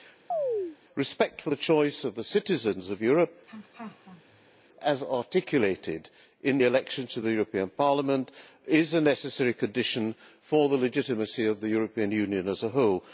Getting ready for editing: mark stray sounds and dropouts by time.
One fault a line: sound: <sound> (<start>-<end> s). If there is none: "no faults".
sound: chirp (0.3-0.8 s)
sound: laugh (3.5-4.6 s)